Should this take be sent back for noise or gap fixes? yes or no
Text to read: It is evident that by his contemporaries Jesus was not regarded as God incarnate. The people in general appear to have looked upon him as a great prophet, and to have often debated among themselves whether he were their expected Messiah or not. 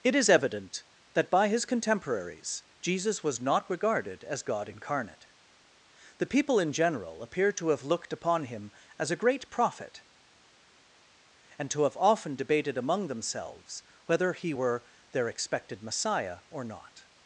no